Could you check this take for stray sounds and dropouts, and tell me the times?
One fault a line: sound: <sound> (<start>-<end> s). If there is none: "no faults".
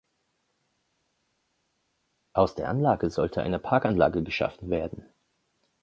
no faults